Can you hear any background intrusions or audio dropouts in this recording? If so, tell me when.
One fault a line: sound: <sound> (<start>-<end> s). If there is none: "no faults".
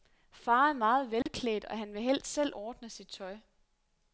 sound: dropout (1.2-1.3 s)